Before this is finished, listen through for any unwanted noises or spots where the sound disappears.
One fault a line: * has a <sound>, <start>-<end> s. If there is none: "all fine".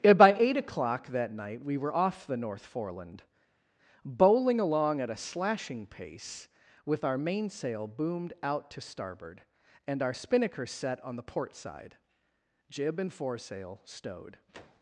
all fine